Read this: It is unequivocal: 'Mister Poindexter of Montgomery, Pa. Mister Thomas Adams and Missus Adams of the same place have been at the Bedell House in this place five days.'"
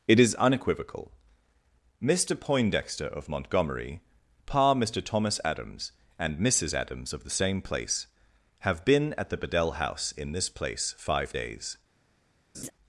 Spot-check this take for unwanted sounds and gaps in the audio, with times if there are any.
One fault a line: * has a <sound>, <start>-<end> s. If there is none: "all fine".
* has a laugh, 12.5-12.7 s